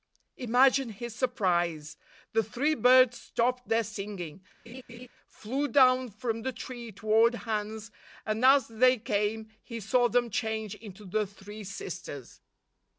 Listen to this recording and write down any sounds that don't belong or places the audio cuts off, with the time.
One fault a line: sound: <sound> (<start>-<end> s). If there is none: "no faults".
sound: laugh (4.7-5.1 s)